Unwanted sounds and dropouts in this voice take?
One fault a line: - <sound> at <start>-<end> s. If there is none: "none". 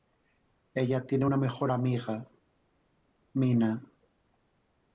none